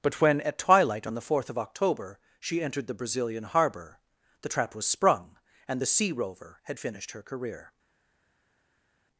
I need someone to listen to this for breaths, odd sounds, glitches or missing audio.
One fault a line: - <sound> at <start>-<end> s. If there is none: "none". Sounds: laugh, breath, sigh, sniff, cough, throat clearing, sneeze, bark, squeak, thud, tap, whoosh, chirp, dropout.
none